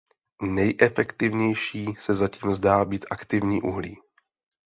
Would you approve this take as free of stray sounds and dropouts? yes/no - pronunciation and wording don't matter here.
yes